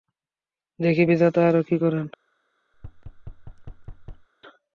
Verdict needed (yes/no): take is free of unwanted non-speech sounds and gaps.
no